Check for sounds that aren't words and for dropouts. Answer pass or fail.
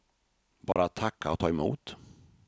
fail